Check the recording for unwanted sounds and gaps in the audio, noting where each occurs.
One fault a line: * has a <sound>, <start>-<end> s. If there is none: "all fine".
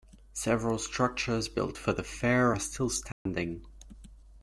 * has a dropout, 3.1-3.3 s